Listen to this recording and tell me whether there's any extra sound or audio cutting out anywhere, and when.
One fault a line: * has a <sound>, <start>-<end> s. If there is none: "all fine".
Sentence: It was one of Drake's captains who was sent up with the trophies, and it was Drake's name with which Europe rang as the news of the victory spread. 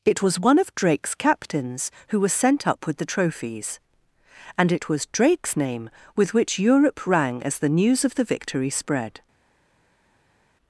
all fine